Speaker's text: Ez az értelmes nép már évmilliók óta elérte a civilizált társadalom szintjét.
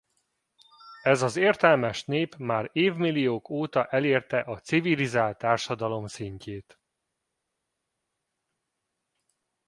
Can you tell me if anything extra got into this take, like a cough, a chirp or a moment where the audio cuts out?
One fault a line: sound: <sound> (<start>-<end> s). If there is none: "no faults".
no faults